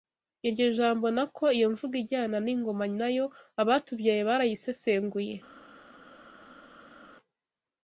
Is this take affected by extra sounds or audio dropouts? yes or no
no